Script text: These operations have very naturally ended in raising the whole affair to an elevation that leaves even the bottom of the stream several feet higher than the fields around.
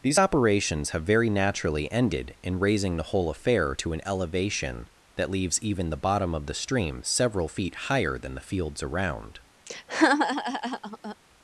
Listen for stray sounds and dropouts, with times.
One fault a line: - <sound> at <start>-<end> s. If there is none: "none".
- laugh at 9.7-11.2 s